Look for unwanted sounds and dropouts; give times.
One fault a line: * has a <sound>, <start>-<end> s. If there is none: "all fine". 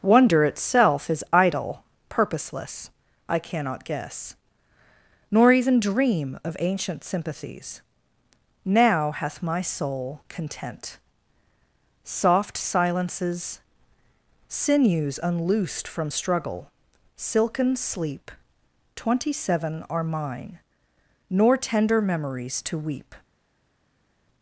all fine